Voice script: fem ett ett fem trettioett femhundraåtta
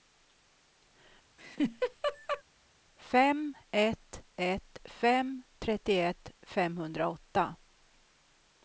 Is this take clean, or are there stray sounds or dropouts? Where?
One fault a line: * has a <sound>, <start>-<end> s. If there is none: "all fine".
* has a laugh, 1.4-2.4 s